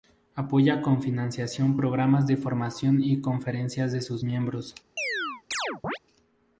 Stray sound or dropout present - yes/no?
yes